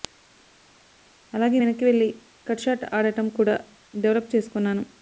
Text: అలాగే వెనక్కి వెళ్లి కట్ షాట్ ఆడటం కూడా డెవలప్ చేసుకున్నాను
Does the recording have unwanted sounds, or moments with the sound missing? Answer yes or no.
no